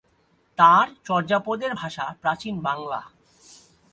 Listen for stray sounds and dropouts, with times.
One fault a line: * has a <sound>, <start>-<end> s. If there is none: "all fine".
all fine